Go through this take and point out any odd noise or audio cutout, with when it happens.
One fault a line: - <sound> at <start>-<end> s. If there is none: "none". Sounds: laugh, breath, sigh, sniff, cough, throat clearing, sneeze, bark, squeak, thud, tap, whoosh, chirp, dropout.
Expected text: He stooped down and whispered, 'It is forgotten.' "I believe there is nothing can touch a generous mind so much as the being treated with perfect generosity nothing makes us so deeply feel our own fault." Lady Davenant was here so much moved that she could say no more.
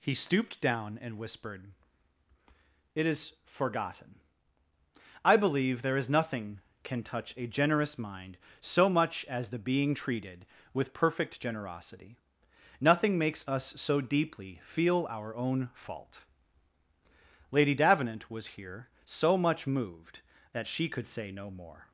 none